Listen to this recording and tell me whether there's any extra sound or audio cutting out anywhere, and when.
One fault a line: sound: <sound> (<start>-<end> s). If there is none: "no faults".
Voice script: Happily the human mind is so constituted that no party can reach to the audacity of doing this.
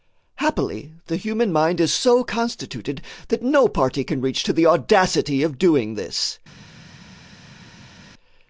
no faults